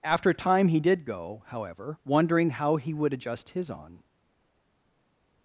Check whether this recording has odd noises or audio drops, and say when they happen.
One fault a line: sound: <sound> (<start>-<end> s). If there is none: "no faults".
no faults